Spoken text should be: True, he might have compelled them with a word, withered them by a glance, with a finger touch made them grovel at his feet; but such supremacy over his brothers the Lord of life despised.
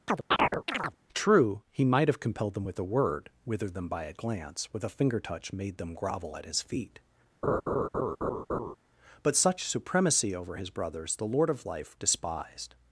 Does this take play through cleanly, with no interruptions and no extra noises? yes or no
no